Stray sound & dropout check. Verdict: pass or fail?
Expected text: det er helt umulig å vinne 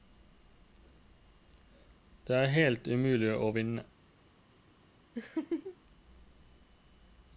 fail